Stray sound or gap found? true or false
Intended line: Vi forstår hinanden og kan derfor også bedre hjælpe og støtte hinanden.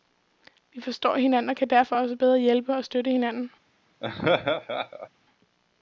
true